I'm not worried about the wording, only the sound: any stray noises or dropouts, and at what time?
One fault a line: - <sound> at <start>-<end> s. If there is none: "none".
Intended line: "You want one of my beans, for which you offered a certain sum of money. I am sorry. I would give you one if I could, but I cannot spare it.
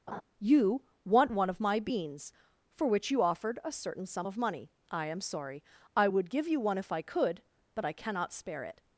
- laugh at 0.1-0.2 s